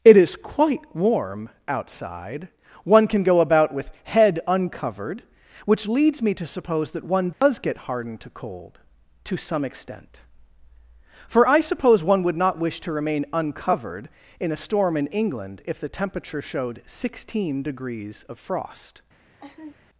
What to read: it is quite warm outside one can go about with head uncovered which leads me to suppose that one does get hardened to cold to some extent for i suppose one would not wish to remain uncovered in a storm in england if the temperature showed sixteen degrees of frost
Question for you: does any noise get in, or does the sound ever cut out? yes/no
yes